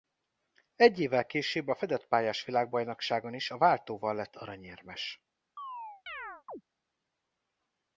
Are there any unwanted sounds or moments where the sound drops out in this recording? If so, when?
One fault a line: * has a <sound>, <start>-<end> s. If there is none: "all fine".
* has a chirp, 5.6-6.6 s